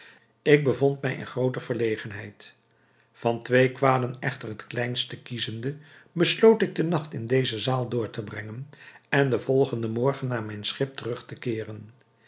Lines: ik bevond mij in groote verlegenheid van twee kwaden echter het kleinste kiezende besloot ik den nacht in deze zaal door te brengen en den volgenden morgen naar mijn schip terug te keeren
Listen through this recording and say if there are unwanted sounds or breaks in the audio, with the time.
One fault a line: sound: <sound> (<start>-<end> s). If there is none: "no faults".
no faults